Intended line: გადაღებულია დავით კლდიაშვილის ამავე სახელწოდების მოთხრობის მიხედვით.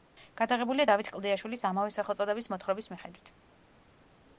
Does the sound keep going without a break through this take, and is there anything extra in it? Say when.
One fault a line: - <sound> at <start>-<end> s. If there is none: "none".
none